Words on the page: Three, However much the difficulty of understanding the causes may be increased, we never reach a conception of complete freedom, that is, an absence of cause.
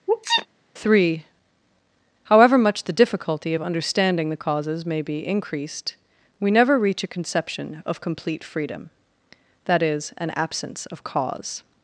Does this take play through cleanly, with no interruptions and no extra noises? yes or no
no